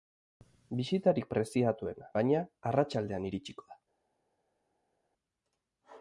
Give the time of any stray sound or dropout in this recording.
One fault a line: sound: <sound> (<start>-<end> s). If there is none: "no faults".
no faults